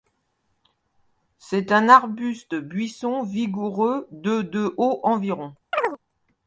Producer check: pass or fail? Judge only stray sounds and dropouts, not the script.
fail